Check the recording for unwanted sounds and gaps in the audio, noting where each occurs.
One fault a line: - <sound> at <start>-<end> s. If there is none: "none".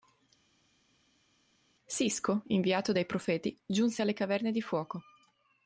none